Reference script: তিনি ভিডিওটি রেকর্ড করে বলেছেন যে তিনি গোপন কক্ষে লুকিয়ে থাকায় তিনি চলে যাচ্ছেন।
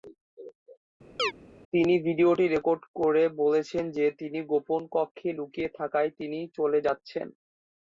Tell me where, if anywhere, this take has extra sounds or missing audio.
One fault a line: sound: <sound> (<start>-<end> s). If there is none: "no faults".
sound: chirp (1.2-1.3 s)